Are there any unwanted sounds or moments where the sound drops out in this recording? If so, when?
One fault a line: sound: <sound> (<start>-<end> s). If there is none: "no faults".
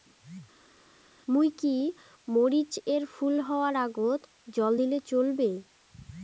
no faults